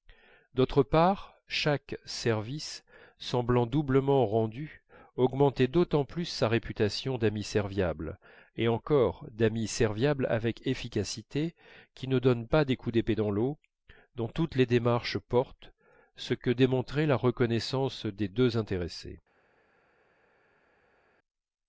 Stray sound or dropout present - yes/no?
no